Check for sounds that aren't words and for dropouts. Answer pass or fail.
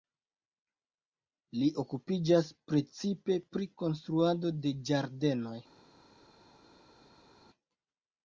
pass